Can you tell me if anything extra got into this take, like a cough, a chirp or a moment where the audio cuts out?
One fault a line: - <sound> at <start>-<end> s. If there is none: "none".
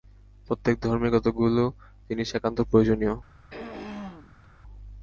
- throat clearing at 3.5-4.5 s